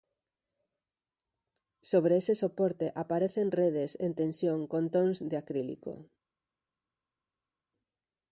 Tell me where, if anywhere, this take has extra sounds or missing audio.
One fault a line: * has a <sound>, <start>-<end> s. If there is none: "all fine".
all fine